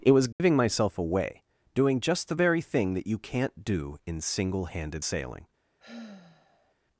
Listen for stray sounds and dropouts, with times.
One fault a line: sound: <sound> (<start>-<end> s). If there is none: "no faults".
sound: dropout (0.3-0.4 s)
sound: sigh (5.8-6.8 s)